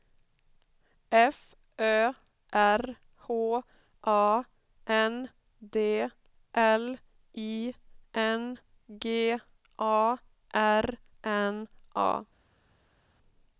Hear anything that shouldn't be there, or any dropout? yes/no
no